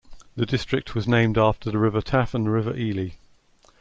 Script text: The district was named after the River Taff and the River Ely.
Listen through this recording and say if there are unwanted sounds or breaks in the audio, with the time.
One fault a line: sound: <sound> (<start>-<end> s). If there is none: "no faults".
no faults